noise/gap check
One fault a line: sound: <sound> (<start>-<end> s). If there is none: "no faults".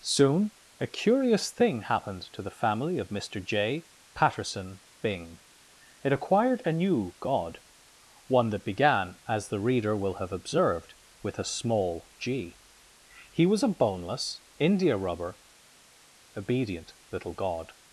no faults